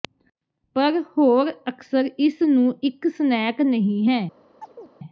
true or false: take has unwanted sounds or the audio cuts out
true